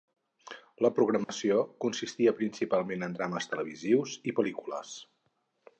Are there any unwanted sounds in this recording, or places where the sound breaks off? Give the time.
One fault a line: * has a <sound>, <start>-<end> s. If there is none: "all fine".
* has a dropout, 1.2-1.3 s